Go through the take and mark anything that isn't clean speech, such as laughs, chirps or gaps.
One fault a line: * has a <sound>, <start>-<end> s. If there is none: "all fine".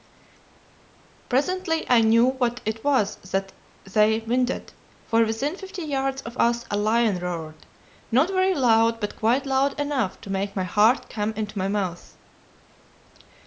all fine